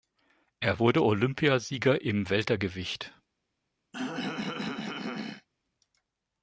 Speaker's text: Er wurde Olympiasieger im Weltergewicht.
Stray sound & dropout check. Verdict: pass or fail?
fail